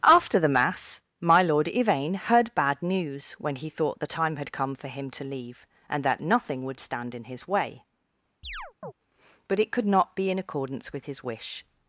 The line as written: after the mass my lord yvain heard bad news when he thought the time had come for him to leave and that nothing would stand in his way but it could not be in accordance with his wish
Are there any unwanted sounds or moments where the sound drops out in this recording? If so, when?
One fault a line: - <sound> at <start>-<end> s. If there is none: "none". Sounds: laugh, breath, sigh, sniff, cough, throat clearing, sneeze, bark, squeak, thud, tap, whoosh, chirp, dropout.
- chirp at 8.4-8.9 s